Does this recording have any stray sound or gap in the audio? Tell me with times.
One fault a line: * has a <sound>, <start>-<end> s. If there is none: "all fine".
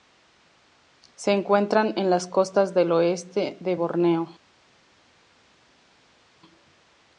all fine